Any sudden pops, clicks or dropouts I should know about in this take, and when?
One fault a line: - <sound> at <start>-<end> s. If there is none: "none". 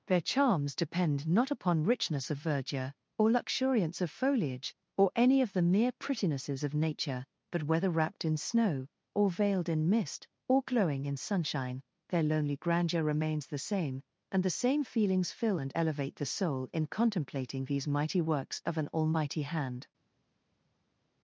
none